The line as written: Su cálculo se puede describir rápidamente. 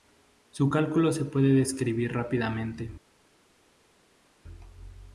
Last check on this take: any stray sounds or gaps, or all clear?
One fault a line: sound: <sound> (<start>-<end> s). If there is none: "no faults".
no faults